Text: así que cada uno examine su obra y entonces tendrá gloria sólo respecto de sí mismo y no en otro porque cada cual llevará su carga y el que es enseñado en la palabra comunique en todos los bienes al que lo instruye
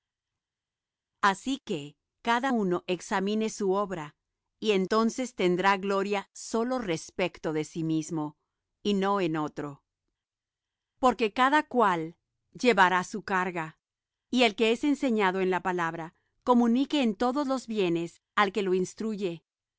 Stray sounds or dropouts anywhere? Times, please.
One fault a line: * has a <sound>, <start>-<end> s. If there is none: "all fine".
all fine